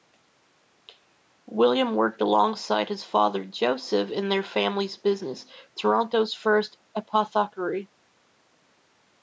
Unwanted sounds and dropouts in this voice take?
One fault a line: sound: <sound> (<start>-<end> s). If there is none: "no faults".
no faults